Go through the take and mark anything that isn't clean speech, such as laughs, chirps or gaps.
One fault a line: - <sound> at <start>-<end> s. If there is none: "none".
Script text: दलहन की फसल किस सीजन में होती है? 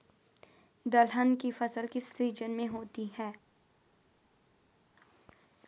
none